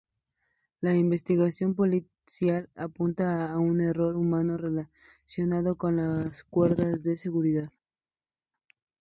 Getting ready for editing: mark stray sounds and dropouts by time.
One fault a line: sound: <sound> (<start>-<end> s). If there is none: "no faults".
no faults